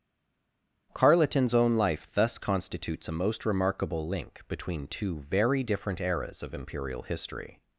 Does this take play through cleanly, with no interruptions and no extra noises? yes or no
yes